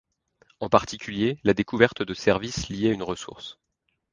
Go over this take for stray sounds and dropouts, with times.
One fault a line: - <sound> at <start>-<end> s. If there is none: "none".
none